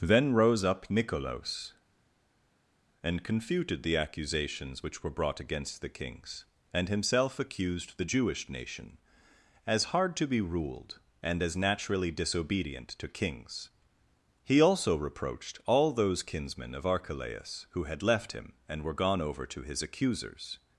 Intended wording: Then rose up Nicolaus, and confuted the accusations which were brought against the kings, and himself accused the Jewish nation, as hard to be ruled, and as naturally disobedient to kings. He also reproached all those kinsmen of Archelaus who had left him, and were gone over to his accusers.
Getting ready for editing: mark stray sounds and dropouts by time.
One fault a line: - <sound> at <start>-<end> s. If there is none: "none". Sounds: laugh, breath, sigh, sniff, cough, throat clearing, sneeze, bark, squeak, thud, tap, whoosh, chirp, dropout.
none